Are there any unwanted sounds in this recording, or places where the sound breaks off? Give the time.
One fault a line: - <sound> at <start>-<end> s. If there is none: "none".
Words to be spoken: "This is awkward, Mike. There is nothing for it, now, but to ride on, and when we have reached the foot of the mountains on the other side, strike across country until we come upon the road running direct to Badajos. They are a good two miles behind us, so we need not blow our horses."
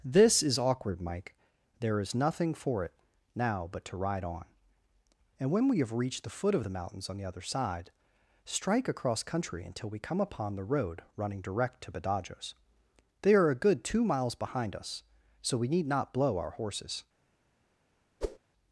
- whoosh at 18.2-18.4 s